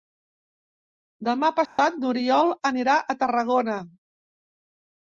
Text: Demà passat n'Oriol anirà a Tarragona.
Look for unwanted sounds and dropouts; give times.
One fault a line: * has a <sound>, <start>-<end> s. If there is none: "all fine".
* has a dropout, 1.7-1.8 s